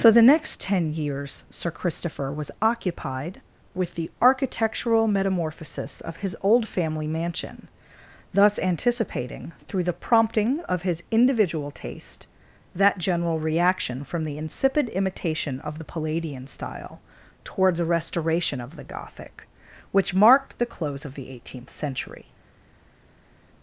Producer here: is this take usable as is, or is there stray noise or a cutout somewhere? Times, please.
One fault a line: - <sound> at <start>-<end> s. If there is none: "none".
none